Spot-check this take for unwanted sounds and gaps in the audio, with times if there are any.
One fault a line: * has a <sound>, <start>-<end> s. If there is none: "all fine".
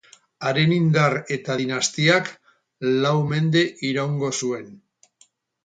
all fine